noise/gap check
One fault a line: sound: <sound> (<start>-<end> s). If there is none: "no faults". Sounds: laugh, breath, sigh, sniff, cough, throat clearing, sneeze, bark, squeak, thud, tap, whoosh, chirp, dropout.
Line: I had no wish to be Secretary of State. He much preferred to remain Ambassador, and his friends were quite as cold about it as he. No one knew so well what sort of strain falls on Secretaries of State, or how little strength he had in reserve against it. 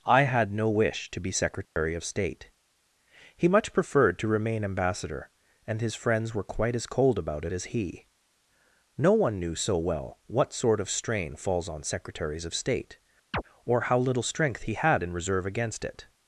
sound: dropout (1.6-1.8 s)
sound: chirp (13.3-13.4 s)